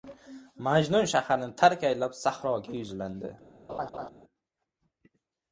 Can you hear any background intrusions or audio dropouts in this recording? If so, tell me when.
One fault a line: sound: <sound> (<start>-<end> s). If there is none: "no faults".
sound: laugh (3.7-4.1 s)